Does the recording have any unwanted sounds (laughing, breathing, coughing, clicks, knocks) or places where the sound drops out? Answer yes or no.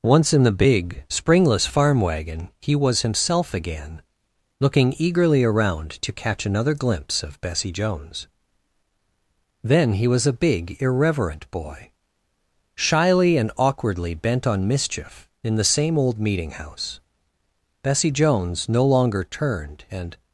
no